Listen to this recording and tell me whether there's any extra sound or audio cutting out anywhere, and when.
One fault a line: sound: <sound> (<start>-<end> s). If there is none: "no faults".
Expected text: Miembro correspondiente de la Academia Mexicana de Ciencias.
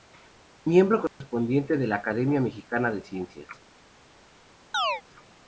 sound: dropout (1.1-1.2 s)
sound: chirp (4.7-5.0 s)